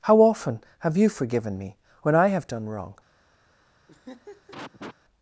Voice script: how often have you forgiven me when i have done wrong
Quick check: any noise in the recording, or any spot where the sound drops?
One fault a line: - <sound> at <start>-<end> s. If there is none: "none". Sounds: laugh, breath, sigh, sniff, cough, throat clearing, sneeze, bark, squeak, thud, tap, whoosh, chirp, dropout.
- laugh at 3.9-5.0 s